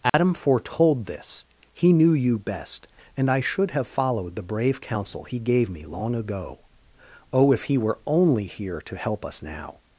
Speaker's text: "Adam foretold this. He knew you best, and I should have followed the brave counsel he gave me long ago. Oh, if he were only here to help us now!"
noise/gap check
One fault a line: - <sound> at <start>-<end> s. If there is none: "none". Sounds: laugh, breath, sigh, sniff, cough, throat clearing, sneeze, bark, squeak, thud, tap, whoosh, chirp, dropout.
- dropout at 0.1-0.1 s